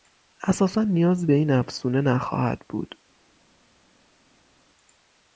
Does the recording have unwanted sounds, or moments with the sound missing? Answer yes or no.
no